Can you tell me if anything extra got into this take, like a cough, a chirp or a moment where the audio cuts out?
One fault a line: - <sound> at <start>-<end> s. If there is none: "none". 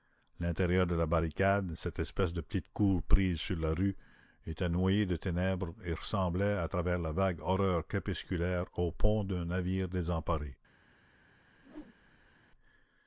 - whoosh at 11.5-12.4 s